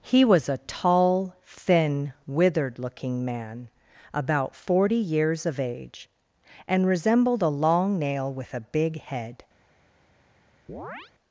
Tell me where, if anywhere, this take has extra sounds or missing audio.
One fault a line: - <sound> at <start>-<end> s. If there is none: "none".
- chirp at 10.7-11.1 s